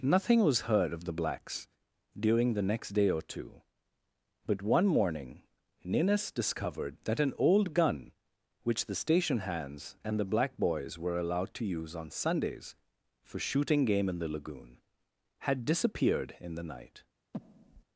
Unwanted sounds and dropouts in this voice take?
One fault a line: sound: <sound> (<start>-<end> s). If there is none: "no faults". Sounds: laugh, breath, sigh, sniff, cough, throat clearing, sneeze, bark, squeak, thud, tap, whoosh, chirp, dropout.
sound: breath (17.3-17.8 s)